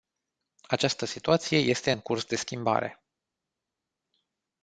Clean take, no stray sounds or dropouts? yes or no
yes